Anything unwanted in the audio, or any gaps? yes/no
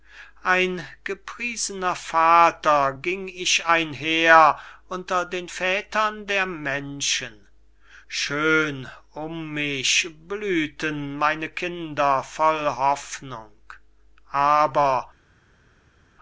no